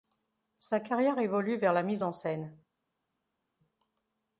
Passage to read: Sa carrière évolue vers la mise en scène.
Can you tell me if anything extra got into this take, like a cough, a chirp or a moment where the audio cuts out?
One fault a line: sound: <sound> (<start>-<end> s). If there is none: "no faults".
no faults